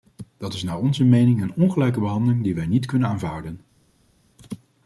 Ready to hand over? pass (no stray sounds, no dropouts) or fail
pass